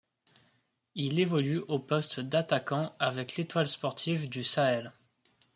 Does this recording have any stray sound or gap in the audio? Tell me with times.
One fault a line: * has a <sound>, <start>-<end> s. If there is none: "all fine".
all fine